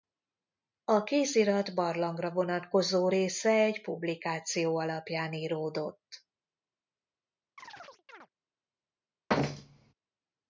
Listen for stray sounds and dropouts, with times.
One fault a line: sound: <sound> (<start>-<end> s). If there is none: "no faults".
sound: chirp (7.6-8.3 s)
sound: thud (9.3-9.9 s)